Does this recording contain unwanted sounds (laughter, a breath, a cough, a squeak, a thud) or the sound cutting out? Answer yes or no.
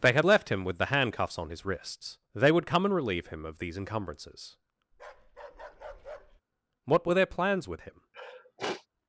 yes